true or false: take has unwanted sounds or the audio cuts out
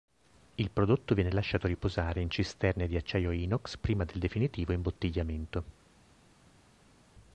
false